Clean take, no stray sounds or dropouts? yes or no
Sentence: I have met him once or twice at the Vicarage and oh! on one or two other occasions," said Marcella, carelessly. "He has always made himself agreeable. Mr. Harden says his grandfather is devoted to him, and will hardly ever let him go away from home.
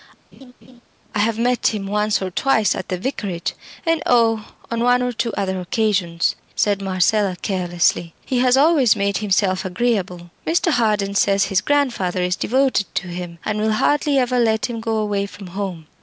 no